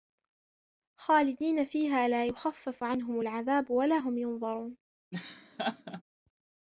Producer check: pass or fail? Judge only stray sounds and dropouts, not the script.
fail